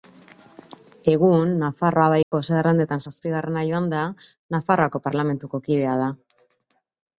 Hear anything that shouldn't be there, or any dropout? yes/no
yes